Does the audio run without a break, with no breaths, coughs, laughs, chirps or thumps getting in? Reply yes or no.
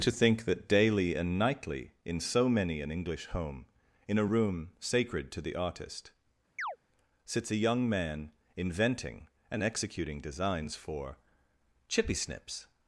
no